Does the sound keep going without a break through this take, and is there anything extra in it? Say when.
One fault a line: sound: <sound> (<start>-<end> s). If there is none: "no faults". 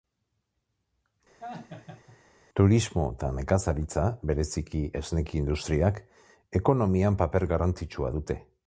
sound: laugh (1.4-2.2 s)